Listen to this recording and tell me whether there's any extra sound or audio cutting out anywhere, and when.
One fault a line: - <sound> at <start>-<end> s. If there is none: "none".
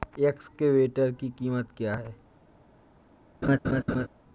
- laugh at 3.4-4.1 s